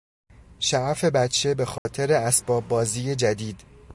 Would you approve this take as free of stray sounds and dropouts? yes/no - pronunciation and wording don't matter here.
no